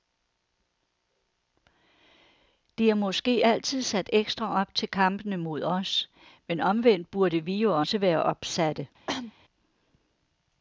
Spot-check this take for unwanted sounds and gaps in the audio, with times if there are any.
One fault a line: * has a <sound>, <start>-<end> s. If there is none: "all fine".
* has a cough, 9.1-9.3 s